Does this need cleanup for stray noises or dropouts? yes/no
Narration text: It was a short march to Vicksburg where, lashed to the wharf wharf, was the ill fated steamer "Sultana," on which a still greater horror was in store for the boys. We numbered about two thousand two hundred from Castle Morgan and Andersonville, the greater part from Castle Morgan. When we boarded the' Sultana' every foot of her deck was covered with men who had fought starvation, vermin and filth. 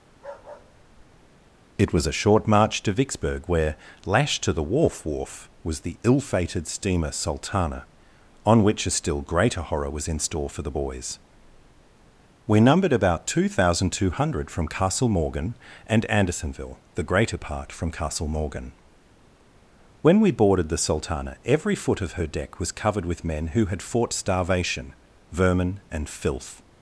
yes